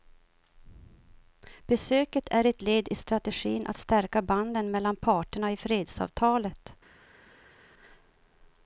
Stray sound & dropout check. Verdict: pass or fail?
pass